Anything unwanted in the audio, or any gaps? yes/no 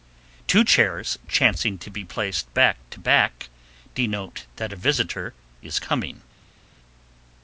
no